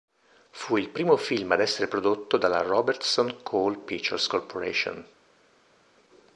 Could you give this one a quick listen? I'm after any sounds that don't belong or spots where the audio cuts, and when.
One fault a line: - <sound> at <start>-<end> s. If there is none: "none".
none